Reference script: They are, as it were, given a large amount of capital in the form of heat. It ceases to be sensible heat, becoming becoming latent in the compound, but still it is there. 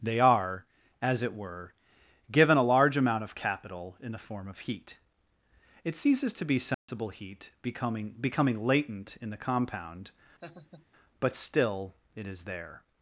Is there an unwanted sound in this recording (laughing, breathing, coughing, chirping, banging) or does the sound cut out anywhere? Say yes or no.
yes